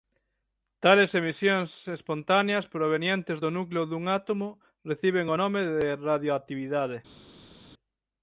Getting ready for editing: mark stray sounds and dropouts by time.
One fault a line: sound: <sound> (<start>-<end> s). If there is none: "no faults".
no faults